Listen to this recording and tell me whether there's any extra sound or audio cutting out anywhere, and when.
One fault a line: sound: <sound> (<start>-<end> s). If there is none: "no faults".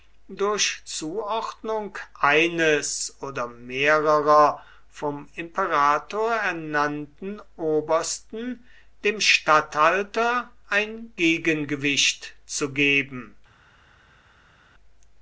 no faults